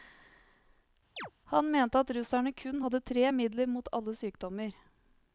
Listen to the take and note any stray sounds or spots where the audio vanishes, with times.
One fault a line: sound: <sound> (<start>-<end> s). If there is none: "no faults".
sound: chirp (1.2-1.3 s)